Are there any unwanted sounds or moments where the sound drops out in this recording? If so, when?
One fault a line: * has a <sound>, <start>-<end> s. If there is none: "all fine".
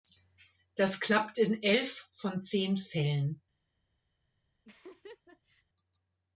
* has a laugh, 4.6-5.6 s